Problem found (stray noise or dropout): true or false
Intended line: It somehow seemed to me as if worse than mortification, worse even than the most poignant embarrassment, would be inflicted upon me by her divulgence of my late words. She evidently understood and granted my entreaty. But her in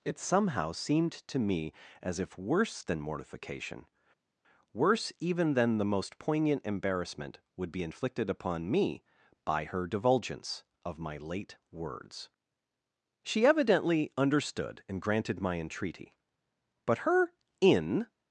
false